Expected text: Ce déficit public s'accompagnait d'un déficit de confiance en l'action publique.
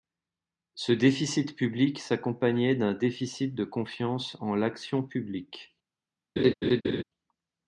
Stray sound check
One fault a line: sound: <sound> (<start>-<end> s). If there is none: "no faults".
sound: laugh (6.4-7.0 s)